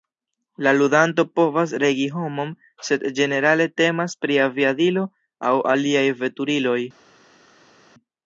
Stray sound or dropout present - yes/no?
no